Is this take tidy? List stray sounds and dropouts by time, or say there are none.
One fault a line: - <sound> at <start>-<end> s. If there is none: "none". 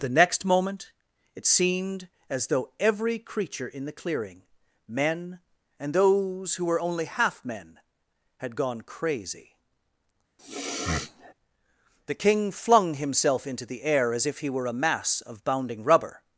- sniff at 10.4-11.3 s